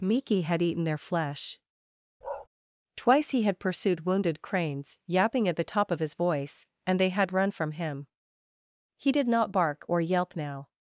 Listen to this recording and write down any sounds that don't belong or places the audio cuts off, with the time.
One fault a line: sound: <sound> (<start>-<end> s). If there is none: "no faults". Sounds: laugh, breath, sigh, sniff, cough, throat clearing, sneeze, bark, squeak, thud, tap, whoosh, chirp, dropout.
sound: bark (2.2-2.5 s)